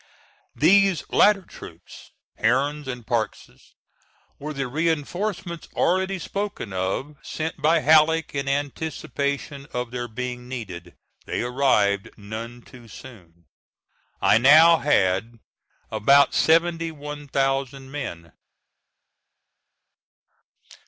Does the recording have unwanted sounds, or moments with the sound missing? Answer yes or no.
no